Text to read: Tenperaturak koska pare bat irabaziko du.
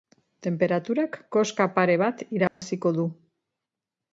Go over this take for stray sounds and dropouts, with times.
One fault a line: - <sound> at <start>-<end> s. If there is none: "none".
- dropout at 2.5-2.6 s